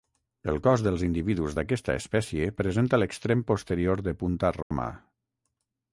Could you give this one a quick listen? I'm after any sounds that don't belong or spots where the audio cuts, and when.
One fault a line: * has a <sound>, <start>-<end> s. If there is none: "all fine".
* has a dropout, 4.6-4.7 s